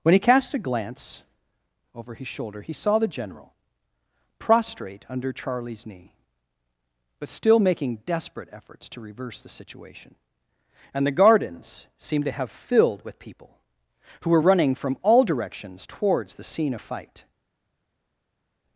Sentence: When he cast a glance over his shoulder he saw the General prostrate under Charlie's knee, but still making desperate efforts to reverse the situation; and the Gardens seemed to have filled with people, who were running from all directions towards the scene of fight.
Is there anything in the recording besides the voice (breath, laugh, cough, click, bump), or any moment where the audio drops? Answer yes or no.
no